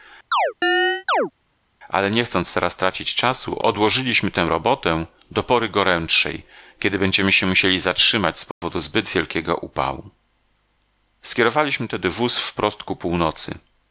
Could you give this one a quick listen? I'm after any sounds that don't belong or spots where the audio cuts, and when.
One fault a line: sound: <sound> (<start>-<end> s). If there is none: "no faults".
sound: chirp (0.3-1.3 s)
sound: dropout (8.5-8.6 s)